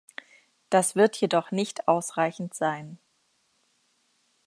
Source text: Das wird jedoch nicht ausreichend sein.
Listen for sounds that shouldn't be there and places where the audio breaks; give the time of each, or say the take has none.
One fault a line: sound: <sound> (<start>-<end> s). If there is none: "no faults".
no faults